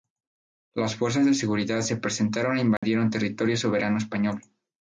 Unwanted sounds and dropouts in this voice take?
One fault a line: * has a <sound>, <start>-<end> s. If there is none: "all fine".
* has a dropout, 2.8-2.8 s